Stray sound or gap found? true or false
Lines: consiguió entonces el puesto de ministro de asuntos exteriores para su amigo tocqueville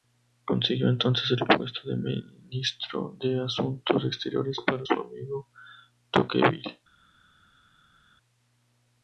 false